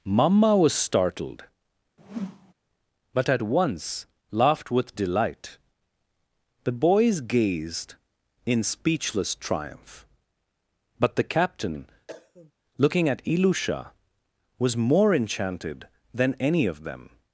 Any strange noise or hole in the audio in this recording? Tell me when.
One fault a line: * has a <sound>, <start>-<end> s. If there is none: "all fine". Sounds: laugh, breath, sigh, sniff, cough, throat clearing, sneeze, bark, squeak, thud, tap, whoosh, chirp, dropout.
* has a whoosh, 2.0-2.5 s
* has a cough, 12.1-12.5 s